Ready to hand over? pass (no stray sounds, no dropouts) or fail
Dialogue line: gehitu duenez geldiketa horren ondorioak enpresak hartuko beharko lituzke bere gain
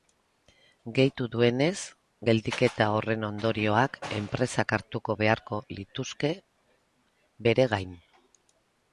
pass